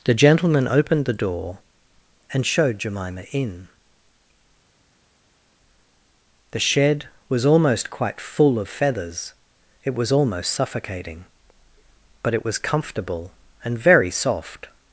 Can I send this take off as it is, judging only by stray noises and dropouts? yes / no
yes